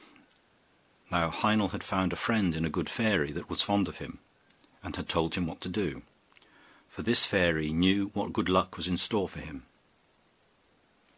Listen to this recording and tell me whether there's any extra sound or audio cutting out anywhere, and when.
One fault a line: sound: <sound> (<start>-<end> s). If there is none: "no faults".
no faults